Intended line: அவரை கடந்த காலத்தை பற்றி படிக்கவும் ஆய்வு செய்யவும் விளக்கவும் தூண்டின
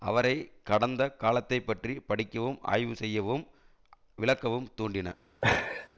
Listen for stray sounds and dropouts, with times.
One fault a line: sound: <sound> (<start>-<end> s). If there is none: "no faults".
sound: laugh (5.4-5.9 s)